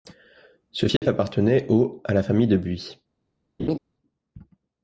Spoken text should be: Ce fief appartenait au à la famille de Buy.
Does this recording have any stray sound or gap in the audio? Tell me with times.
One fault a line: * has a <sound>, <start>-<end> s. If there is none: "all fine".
* has a dropout, 1.0-1.0 s
* has a laugh, 3.6-3.8 s